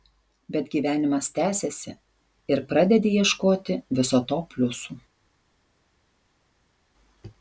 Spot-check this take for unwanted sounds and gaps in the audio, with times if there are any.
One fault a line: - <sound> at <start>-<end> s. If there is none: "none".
none